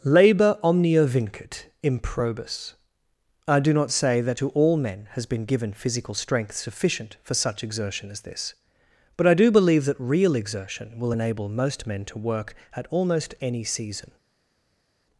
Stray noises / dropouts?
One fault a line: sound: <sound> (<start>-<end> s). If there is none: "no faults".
no faults